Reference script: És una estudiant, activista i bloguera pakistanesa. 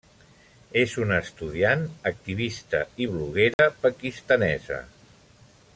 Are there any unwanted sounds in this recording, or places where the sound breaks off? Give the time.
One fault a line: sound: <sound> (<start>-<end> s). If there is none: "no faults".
sound: dropout (3.5-3.6 s)